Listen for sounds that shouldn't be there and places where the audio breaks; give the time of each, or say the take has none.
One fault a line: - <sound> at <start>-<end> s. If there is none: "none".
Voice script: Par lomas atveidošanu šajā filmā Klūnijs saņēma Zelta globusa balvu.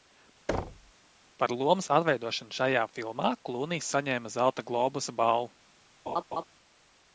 - thud at 0.5-0.9 s
- laugh at 6.1-6.4 s